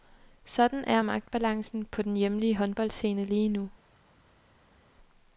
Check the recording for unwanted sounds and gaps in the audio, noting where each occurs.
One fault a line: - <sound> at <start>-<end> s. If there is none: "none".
none